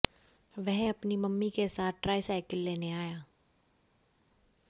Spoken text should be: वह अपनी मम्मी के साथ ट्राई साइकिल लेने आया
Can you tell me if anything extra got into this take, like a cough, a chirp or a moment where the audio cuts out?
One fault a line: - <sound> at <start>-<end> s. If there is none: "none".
none